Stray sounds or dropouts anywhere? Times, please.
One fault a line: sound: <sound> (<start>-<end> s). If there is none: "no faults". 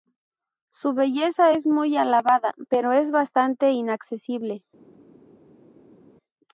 no faults